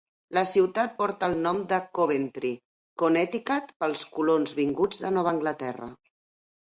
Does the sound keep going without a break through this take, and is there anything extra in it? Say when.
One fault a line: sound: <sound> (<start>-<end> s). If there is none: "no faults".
no faults